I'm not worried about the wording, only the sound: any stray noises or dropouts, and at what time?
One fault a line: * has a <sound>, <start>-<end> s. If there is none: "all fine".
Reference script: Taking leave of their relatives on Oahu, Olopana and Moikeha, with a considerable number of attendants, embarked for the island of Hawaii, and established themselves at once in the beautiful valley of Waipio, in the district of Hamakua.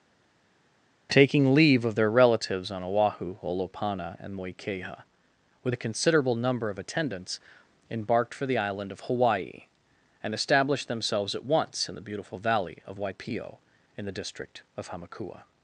all fine